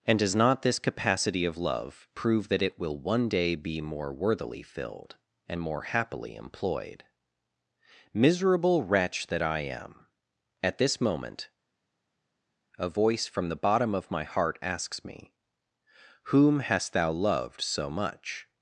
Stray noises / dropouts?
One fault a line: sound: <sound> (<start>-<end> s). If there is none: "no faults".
no faults